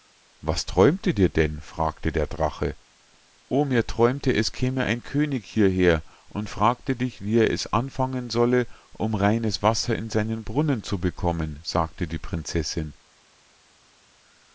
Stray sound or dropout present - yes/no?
no